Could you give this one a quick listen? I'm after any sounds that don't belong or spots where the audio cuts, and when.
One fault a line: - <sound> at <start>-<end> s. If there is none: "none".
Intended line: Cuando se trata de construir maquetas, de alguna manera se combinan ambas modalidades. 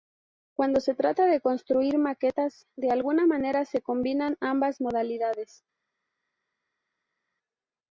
none